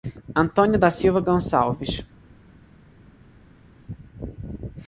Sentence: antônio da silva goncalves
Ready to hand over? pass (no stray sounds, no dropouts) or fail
pass